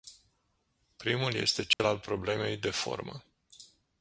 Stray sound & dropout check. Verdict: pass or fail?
fail